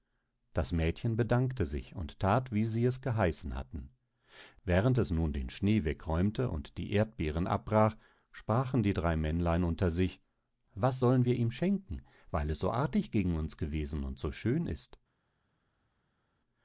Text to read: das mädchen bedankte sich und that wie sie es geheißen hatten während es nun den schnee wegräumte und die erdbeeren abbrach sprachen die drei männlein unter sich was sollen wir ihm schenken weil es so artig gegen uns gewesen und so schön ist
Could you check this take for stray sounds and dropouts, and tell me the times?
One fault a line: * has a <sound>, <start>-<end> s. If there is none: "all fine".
all fine